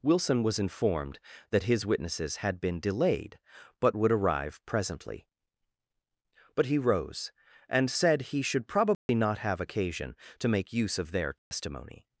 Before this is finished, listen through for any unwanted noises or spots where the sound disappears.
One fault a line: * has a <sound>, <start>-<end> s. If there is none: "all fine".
* has a dropout, 8.9-9.1 s
* has a dropout, 11.4-11.5 s